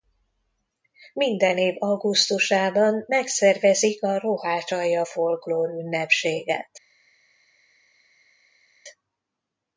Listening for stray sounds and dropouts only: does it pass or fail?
pass